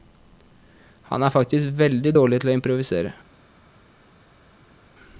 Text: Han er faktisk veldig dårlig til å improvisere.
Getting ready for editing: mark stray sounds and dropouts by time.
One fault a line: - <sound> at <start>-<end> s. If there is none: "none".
none